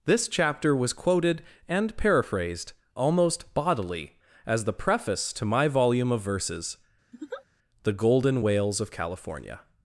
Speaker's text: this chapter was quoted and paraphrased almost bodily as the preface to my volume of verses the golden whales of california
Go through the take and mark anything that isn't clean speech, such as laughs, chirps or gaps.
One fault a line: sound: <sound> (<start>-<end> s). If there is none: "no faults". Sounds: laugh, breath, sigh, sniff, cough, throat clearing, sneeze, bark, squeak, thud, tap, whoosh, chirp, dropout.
sound: laugh (7.1-7.4 s)